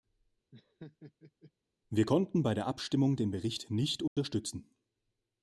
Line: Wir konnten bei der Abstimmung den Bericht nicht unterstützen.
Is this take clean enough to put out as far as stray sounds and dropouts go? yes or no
no